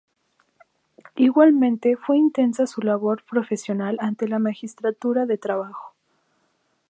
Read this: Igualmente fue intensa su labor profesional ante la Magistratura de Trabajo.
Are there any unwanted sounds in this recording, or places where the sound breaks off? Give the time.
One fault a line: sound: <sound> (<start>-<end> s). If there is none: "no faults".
no faults